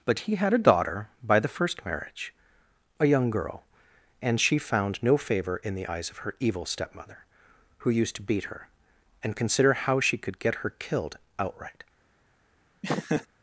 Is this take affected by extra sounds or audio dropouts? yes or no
yes